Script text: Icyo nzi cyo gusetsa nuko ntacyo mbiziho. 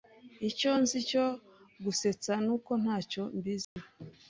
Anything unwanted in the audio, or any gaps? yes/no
yes